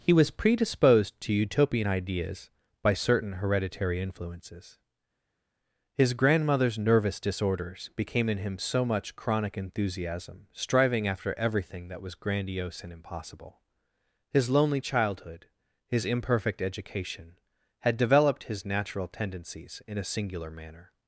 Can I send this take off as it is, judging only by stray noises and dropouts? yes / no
yes